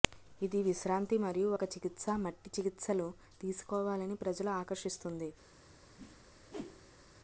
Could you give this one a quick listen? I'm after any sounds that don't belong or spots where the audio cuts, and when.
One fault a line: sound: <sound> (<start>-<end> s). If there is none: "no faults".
sound: whoosh (6.0-7.1 s)